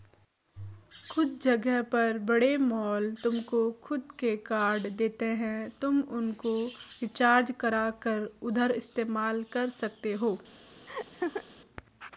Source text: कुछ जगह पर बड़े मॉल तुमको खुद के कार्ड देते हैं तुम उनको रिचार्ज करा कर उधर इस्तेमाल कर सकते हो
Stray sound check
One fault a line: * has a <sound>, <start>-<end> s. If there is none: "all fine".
* has a laugh, 10.9-11.4 s